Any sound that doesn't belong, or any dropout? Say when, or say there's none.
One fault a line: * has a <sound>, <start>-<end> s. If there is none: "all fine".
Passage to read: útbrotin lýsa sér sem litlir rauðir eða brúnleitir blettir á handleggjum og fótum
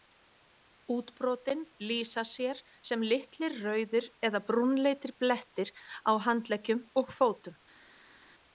all fine